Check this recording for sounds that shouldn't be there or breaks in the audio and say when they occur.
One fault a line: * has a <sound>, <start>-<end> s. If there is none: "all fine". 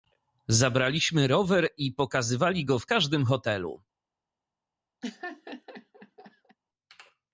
* has a laugh, 5.0-6.6 s